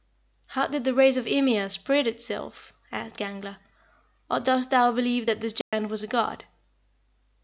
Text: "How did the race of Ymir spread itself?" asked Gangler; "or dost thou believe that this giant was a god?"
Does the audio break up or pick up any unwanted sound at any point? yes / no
yes